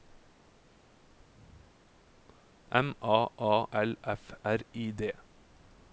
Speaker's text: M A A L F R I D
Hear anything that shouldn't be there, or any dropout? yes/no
no